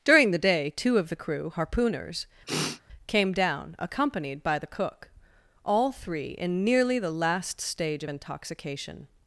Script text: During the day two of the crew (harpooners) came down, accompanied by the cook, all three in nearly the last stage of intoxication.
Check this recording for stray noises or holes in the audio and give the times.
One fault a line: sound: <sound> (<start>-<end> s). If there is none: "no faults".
sound: sniff (2.5-2.8 s)